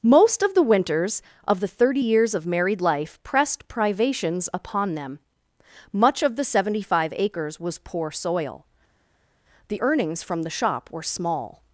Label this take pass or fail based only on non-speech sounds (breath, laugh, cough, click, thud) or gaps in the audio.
pass